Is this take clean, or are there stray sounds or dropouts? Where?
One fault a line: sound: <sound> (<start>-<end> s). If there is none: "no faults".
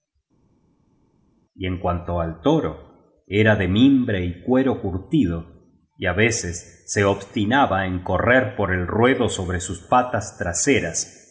no faults